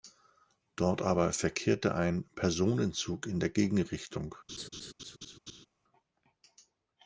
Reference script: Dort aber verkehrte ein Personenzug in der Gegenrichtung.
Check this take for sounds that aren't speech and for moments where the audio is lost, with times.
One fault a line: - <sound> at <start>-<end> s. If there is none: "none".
- laugh at 4.5-5.7 s